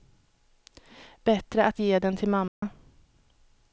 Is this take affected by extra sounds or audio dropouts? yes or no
yes